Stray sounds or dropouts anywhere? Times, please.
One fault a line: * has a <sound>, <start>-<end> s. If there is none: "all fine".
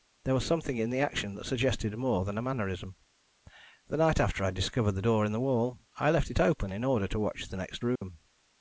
* has a dropout, 8.0-8.0 s